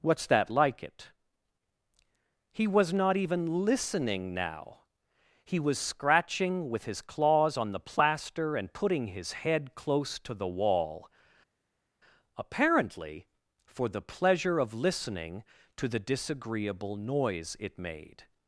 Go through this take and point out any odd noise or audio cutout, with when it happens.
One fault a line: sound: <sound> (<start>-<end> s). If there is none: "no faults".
no faults